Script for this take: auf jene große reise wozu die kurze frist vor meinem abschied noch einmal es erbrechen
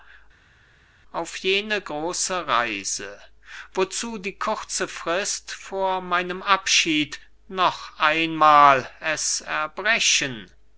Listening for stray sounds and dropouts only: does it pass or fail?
pass